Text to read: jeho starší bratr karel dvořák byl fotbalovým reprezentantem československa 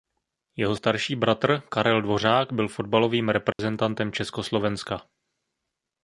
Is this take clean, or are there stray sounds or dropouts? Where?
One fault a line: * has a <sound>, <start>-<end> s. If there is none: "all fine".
* has a dropout, 3.5-3.6 s